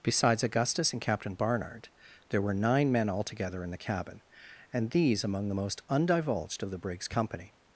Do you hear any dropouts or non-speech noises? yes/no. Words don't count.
no